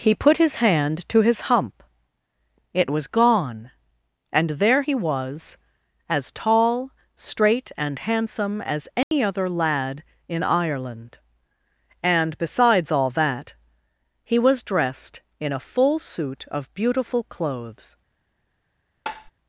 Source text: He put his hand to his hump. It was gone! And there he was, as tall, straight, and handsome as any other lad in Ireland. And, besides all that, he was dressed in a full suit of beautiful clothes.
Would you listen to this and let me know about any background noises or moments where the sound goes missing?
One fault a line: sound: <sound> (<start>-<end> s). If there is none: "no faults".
sound: dropout (9.0-9.1 s)
sound: tap (19.1-19.3 s)